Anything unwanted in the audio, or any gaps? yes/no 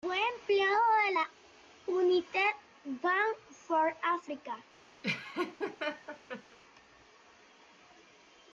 yes